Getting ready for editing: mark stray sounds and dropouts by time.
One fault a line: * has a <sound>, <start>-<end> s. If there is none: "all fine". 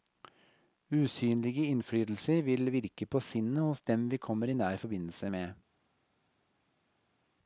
all fine